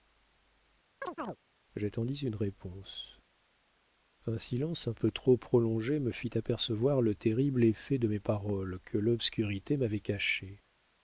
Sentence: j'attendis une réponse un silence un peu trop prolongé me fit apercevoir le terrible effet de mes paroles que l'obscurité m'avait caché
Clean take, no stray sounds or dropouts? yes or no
no